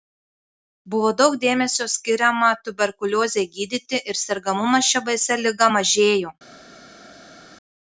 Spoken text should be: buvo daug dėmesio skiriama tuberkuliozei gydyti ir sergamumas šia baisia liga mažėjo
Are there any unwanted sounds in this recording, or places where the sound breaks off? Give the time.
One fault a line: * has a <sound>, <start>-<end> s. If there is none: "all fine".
all fine